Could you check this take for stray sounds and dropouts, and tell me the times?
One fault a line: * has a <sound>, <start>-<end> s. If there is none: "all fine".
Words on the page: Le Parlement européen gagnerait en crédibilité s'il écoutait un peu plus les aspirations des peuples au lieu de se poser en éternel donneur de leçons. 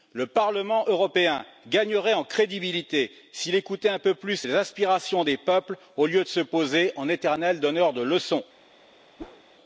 * has a whoosh, 9.2-9.4 s